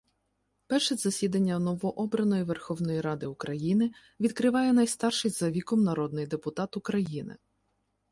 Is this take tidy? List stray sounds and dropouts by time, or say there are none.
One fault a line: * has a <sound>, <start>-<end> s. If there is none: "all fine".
all fine